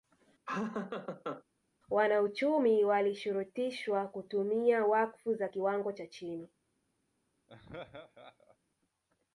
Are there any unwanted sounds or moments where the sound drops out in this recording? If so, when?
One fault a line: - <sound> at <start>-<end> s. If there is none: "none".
- laugh at 0.5-1.4 s
- laugh at 7.5-8.6 s